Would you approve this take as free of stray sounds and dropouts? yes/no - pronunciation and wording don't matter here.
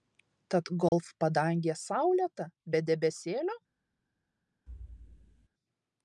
no